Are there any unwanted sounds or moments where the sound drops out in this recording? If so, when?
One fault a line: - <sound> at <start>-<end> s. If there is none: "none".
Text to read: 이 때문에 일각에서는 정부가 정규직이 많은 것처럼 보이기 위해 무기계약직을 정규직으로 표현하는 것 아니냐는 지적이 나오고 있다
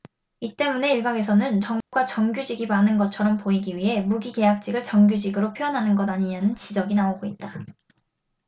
- dropout at 1.8-1.9 s